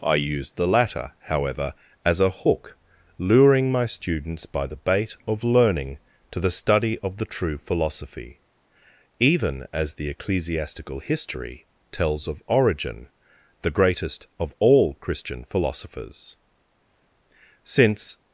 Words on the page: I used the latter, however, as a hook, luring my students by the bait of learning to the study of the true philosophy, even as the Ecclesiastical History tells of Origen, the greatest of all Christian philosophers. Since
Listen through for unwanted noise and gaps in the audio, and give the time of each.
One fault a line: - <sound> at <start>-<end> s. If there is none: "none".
none